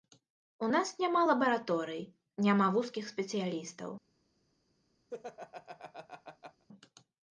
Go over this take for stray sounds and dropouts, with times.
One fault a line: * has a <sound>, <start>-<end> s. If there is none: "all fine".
* has a laugh, 5.1-6.7 s